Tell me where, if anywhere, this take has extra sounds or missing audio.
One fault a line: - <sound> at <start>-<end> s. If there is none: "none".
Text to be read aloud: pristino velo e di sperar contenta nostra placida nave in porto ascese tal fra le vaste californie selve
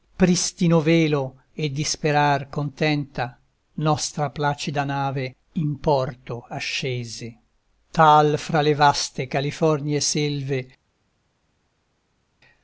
none